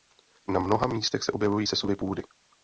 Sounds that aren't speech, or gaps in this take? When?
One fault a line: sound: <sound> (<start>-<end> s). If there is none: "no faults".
no faults